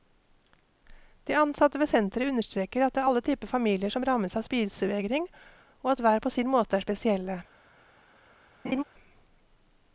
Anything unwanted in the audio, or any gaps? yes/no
yes